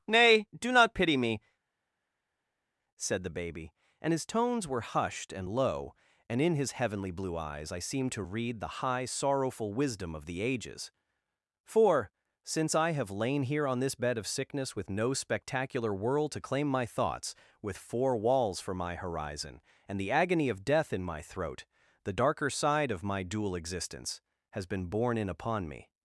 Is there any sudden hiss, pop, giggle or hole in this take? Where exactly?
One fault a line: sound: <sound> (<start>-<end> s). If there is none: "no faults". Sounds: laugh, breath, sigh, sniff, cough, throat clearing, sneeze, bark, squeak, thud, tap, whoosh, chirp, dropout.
no faults